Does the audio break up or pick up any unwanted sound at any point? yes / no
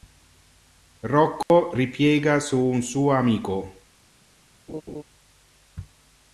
yes